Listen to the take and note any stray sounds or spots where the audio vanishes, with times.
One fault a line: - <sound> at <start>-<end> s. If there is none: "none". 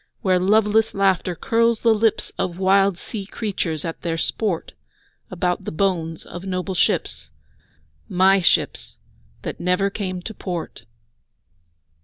none